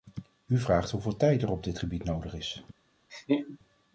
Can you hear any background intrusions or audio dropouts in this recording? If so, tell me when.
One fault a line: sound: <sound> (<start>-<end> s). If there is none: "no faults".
sound: laugh (3.1-3.6 s)